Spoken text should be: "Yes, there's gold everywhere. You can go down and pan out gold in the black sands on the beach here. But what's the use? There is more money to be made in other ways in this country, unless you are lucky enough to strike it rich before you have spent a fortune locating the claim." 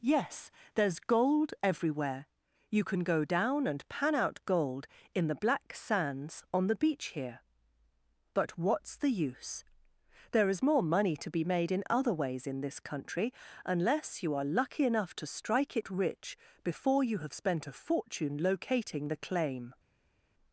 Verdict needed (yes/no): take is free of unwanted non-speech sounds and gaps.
yes